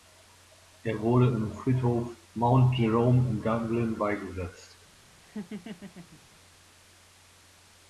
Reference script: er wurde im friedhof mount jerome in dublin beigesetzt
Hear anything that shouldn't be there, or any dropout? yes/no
yes